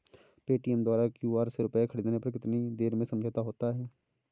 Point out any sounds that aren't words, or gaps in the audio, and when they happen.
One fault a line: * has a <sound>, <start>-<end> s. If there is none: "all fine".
all fine